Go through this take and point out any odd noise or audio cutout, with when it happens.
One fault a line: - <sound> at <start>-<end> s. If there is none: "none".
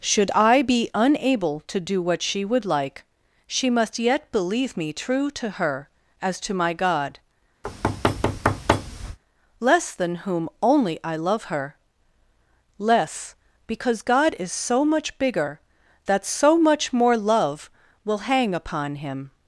- thud at 7.6-9.2 s